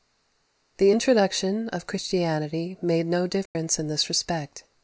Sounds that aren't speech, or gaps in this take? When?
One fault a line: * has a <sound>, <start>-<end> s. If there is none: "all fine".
* has a dropout, 3.5-3.6 s